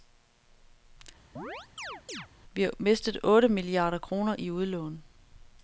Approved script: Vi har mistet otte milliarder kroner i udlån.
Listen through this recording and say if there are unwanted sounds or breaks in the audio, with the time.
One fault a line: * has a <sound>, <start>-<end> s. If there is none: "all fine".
* has a chirp, 1.4-2.3 s